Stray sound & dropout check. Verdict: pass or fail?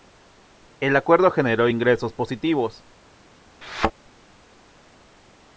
fail